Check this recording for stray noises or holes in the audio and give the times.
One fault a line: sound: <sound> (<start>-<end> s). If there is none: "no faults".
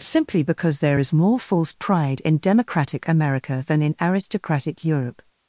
no faults